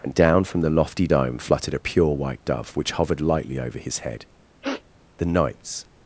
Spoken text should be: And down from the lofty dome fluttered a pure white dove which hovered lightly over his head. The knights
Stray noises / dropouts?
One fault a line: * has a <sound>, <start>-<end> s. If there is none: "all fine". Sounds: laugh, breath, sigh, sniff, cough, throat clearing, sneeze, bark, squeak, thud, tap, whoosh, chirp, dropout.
* has a sniff, 4.6-4.8 s